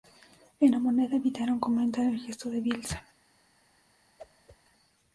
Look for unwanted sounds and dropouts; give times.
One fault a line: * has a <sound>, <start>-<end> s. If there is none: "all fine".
* has a whoosh, 4.2-4.6 s